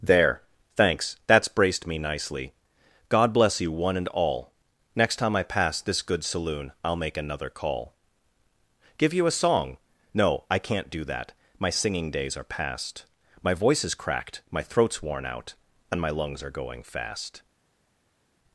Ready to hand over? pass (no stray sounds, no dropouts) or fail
pass